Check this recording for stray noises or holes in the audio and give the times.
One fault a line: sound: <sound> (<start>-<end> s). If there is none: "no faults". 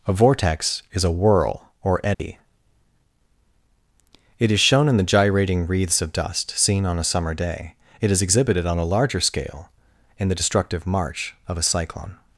sound: dropout (2.1-2.2 s)